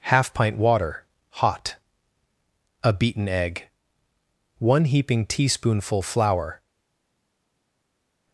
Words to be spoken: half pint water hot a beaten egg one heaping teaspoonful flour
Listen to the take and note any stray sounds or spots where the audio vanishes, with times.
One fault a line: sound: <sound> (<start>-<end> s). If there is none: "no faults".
no faults